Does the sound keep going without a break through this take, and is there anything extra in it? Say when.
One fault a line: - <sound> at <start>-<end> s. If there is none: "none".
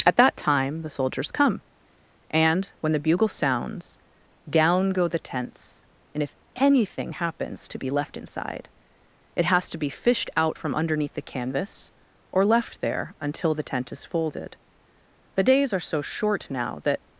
none